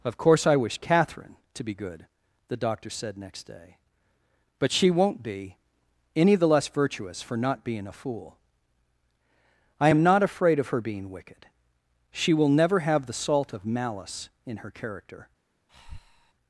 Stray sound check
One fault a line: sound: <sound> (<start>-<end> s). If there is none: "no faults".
sound: breath (15.7-16.3 s)